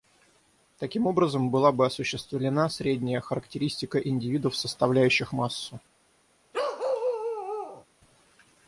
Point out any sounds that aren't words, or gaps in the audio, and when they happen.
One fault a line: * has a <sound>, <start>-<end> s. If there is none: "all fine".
* has a bark, 6.5-7.8 s